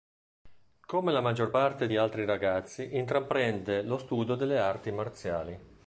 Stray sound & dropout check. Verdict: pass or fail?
pass